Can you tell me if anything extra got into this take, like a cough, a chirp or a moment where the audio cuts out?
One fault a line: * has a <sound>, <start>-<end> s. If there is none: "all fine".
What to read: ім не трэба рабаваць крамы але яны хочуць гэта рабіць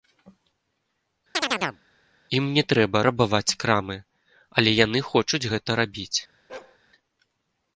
* has a chirp, 1.3-1.8 s
* has a bark, 6.5-6.8 s